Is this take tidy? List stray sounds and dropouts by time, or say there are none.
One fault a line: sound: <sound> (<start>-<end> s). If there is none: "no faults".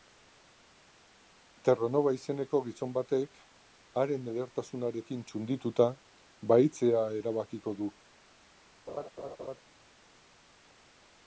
sound: laugh (8.9-9.6 s)